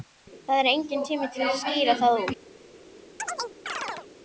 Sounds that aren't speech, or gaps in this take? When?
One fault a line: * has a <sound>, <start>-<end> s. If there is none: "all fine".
* has a chirp, 3.2-4.1 s